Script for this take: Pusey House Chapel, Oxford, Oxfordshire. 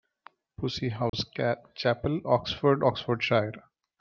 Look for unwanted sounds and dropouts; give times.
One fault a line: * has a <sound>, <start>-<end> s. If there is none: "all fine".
* has a dropout, 1.1-1.1 s